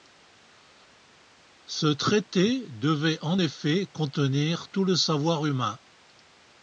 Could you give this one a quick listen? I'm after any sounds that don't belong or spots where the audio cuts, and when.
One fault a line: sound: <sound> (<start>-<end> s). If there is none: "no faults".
no faults